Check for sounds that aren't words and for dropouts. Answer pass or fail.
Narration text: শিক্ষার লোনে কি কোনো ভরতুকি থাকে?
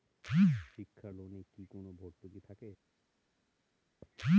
pass